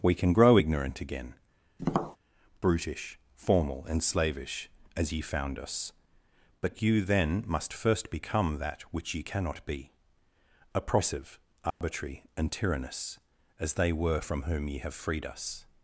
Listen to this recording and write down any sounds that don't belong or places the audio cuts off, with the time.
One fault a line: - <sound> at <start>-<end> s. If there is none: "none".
- tap at 1.8-2.2 s
- dropout at 11.7-11.8 s